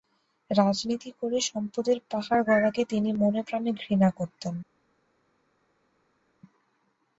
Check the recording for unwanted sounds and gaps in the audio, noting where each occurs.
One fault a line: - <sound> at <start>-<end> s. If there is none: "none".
none